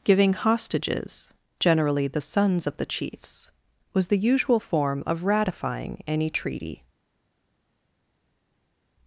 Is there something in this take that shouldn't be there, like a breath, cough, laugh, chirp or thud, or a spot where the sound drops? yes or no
no